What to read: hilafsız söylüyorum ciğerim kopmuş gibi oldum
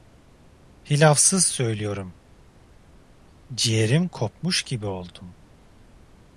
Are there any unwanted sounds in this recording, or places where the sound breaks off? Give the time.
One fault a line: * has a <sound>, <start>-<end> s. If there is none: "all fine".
all fine